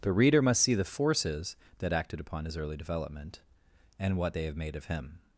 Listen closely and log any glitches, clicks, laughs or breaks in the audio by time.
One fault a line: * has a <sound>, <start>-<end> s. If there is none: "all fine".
all fine